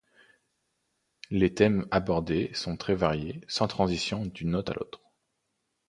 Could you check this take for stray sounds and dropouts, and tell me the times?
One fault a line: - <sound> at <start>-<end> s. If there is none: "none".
none